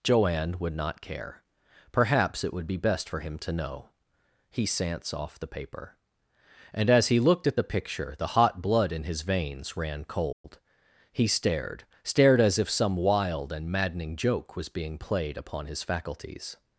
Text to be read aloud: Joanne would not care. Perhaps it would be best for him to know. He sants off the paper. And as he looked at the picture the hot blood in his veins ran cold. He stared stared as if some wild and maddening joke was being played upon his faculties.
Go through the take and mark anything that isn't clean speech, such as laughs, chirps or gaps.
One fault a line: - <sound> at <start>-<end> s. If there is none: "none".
- dropout at 10.3-10.4 s